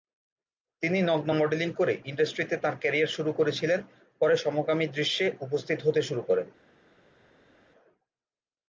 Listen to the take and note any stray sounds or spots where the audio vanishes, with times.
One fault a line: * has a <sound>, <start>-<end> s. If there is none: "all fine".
all fine